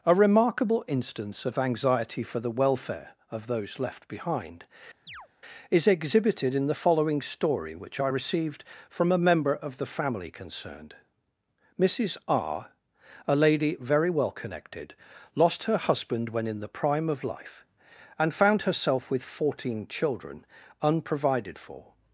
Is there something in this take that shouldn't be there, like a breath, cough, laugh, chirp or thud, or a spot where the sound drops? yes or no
yes